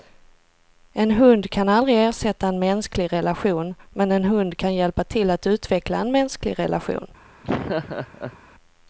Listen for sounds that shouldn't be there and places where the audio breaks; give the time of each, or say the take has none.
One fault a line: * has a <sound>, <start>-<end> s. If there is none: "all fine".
* has a laugh, 7.4-8.4 s